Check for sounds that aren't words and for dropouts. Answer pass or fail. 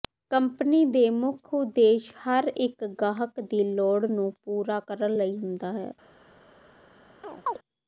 fail